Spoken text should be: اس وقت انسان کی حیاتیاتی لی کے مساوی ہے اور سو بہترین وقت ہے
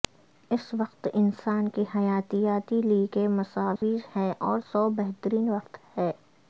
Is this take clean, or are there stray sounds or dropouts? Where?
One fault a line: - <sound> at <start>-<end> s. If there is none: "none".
- dropout at 3.8-3.8 s